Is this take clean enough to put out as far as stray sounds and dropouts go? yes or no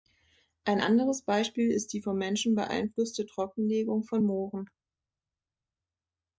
yes